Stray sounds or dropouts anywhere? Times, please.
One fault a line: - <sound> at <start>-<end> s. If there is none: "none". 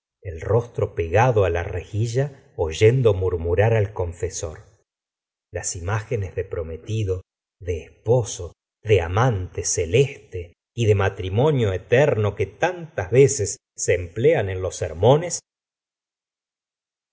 none